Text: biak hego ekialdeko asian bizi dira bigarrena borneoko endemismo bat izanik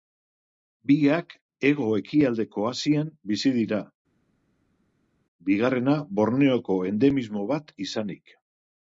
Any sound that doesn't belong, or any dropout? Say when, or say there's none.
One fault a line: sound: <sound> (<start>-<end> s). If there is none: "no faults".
no faults